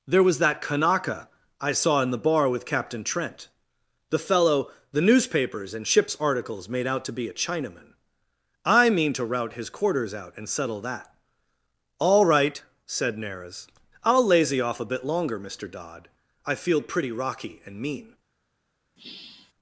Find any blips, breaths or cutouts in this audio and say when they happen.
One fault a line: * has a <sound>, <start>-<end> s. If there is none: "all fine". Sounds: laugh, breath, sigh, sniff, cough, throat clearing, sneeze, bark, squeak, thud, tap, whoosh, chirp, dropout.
* has a sigh, 19.0-19.5 s